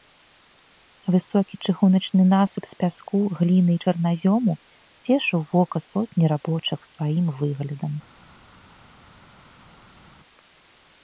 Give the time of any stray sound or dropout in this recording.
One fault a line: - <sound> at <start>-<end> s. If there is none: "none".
none